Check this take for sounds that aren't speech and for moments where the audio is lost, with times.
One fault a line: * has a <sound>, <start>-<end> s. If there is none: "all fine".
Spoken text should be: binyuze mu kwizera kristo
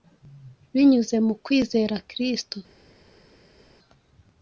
all fine